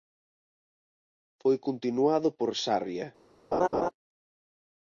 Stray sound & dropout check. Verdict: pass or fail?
fail